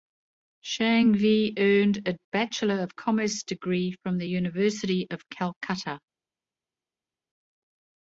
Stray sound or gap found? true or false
false